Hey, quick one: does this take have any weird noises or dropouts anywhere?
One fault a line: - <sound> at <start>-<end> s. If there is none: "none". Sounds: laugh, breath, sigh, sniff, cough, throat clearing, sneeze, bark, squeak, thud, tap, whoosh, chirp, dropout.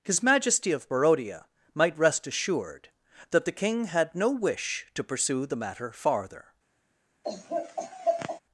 - laugh at 7.2-8.4 s